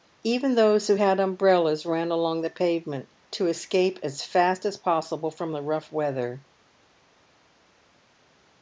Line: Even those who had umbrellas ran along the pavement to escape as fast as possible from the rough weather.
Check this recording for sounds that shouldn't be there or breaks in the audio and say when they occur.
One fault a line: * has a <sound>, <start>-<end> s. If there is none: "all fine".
all fine